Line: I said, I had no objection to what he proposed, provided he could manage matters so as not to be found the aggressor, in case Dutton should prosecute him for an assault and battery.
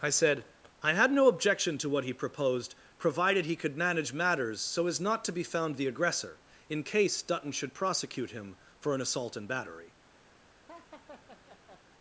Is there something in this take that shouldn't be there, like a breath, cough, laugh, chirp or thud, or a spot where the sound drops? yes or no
yes